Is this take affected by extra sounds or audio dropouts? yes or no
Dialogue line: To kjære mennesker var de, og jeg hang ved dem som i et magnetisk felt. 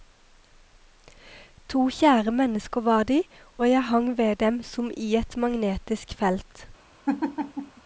yes